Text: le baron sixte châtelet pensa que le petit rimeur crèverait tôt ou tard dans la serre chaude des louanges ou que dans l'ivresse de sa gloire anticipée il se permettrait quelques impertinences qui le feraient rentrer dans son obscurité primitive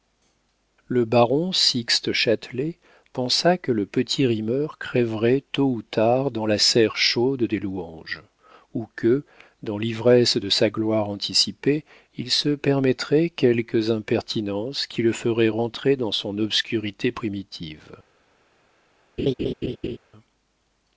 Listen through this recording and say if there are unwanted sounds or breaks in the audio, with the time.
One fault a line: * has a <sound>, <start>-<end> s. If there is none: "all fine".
* has a laugh, 19.2-20.0 s